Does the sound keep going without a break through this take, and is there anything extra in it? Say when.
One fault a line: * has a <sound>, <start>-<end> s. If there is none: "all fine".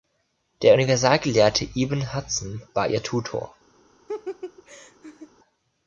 * has a laugh, 4.1-5.3 s